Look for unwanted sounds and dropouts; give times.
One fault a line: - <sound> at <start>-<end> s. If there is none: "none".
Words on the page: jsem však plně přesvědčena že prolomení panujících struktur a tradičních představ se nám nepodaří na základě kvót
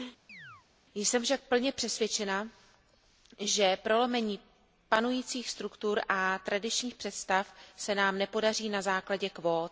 - chirp at 0.3-0.7 s